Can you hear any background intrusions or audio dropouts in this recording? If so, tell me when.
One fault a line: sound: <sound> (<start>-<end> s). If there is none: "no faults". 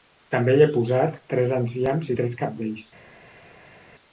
no faults